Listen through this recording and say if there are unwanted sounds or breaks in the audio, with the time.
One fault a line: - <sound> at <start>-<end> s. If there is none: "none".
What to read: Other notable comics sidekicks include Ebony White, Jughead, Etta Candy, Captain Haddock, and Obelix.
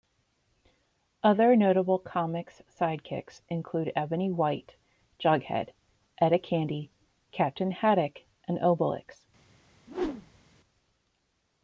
- whoosh at 9.9-10.4 s